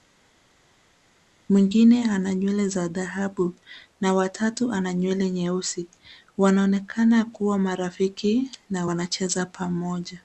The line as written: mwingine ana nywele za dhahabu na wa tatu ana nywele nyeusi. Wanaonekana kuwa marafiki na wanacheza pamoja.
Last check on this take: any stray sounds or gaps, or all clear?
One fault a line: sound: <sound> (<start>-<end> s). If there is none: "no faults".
no faults